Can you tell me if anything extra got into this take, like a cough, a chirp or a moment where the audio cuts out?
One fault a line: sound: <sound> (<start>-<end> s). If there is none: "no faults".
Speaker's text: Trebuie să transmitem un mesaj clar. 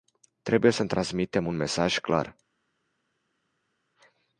no faults